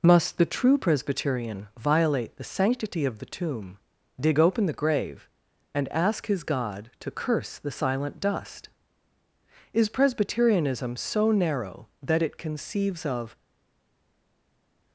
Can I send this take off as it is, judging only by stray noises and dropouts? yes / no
yes